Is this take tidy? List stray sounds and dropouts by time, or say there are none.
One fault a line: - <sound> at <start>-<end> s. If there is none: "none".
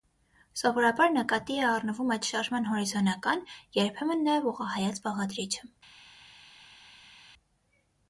none